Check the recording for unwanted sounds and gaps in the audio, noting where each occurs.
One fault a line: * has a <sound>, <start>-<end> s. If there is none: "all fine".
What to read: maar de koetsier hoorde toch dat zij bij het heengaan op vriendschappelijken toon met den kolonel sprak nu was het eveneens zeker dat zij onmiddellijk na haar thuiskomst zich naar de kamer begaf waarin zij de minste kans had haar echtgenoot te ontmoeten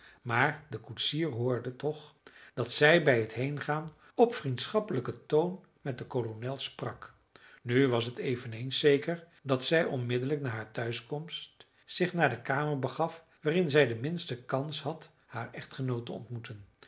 all fine